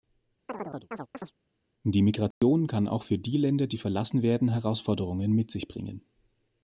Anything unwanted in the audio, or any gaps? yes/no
yes